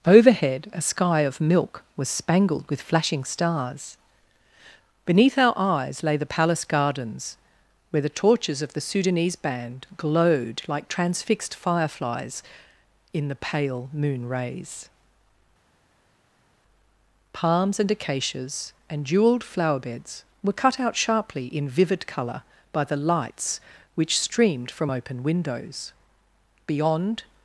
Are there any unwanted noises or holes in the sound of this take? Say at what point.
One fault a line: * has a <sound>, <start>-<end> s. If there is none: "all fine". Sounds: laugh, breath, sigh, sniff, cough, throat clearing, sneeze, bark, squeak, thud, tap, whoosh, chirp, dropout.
all fine